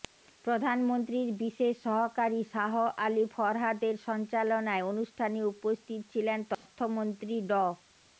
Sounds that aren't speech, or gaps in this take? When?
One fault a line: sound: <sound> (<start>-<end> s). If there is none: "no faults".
sound: dropout (6.5-6.7 s)